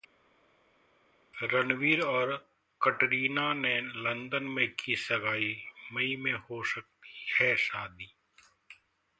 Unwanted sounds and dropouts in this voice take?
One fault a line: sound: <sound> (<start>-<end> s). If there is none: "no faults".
no faults